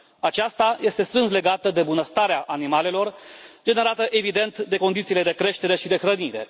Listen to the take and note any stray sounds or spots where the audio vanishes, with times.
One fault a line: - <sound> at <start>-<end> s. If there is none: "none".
none